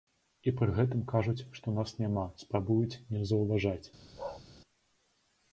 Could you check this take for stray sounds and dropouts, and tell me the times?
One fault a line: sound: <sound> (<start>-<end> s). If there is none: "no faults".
sound: bark (4.2-4.4 s)